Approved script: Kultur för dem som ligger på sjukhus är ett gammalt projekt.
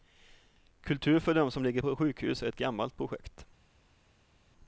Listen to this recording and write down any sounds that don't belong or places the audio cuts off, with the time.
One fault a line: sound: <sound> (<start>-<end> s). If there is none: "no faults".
no faults